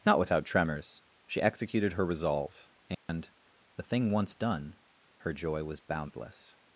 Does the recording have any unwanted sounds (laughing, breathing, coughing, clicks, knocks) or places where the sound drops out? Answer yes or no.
yes